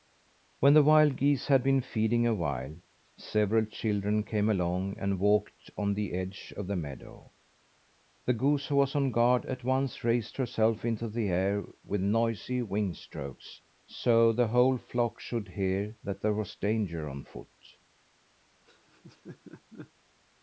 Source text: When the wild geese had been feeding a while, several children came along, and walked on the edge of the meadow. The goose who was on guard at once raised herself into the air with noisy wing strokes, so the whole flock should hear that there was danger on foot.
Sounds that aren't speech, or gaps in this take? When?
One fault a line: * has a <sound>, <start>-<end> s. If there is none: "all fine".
* has a laugh, 18.6-19.9 s